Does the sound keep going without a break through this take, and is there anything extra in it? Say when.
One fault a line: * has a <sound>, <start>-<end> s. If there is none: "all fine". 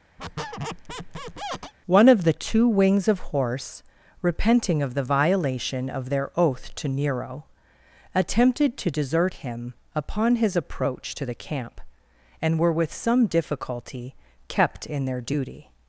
* has a squeak, 0.2-1.7 s